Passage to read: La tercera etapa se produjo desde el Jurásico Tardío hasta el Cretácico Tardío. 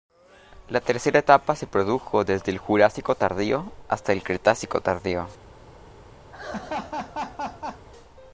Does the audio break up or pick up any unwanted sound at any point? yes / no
yes